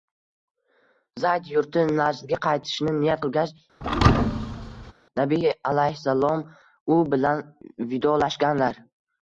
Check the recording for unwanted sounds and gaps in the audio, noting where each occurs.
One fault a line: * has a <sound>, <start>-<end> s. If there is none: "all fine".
* has a thud, 3.8-4.9 s